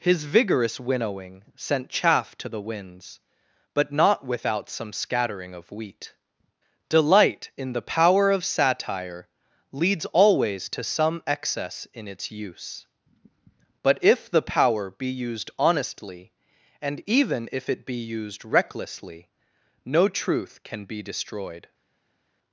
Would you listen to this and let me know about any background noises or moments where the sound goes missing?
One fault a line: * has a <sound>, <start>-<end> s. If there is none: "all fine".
all fine